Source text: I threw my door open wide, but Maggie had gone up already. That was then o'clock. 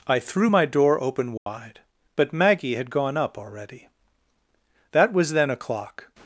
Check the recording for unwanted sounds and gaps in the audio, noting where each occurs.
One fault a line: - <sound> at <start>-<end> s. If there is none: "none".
- dropout at 1.4-1.5 s